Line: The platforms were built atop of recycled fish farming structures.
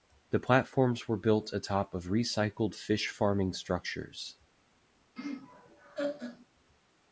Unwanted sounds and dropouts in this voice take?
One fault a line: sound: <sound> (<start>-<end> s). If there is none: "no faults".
sound: laugh (5.2-6.5 s)